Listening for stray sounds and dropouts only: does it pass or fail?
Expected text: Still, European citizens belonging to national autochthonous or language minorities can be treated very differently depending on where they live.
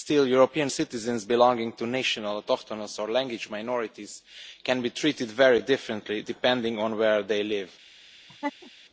fail